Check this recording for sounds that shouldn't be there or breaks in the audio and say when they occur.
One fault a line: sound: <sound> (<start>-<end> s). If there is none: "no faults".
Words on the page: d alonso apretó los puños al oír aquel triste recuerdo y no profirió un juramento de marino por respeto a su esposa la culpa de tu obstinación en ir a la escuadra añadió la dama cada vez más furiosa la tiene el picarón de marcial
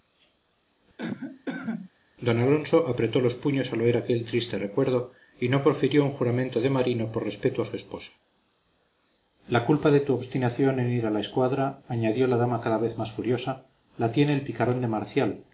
sound: cough (1.0-1.9 s)